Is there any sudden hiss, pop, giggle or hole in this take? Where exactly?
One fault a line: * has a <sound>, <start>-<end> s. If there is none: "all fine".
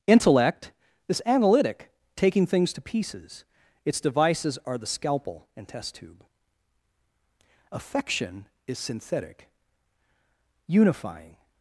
all fine